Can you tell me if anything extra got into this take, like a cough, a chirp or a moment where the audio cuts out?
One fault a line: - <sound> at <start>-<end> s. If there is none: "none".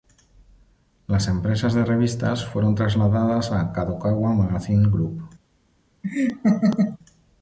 - laugh at 6.0-7.0 s